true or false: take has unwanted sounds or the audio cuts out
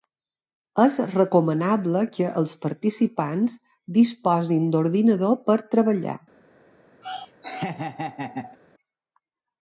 true